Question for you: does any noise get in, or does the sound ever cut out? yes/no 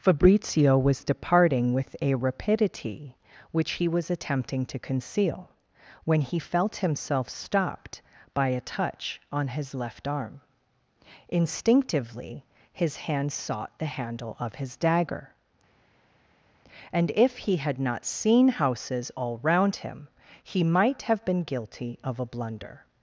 no